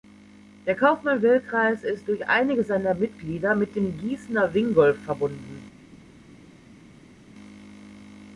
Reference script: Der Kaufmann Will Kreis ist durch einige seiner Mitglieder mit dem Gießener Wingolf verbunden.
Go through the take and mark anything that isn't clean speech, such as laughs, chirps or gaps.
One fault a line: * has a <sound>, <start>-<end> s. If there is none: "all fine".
all fine